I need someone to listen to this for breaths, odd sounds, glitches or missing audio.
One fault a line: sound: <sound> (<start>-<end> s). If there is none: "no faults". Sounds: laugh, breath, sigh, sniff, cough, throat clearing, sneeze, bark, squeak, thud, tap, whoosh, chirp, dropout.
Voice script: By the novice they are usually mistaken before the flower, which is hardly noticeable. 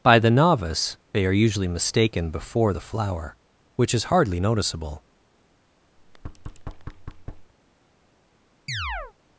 sound: thud (6.0-7.5 s)
sound: chirp (8.7-9.1 s)